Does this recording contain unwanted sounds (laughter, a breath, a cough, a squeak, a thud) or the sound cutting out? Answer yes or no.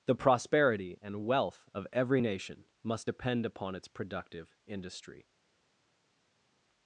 no